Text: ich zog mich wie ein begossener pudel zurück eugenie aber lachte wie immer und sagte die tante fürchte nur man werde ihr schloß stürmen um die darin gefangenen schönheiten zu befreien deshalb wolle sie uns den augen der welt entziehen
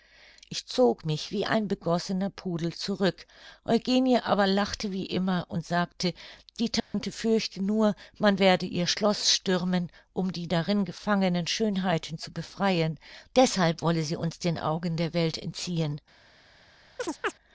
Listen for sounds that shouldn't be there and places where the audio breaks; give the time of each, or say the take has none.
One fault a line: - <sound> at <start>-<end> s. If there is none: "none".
- dropout at 6.8-6.9 s
- chirp at 17.0-17.3 s